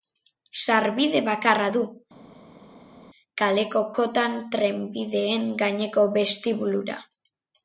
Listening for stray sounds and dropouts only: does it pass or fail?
pass